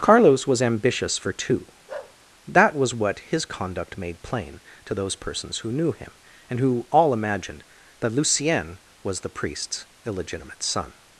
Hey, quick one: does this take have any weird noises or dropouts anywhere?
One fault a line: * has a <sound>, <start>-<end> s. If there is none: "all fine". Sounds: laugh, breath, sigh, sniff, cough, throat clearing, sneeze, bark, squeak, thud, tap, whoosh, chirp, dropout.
* has a bark, 1.9-2.2 s